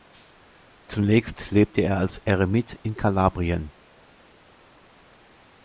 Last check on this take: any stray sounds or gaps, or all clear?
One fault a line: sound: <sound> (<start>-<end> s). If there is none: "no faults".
no faults